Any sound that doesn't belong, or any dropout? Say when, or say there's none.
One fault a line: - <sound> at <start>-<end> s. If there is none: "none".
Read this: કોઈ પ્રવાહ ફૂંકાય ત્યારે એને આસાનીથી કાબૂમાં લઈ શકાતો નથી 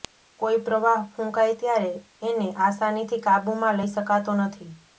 none